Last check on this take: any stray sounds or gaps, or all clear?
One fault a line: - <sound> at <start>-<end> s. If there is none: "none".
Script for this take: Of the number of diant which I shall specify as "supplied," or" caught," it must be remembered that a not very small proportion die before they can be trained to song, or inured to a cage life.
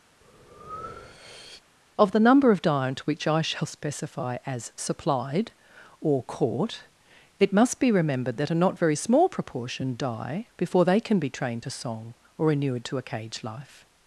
- breath at 0.2-1.6 s